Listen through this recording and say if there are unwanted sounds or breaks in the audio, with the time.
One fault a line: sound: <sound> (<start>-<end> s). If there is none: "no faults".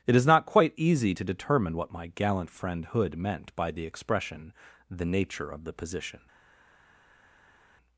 no faults